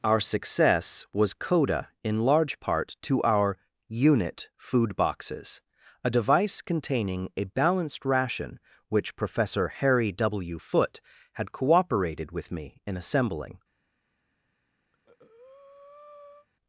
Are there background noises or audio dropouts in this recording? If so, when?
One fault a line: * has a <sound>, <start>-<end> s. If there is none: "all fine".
* has a breath, 14.9-16.5 s